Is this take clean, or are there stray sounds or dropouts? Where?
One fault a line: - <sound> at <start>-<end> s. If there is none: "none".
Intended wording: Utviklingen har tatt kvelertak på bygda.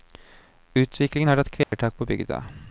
- dropout at 1.6-1.7 s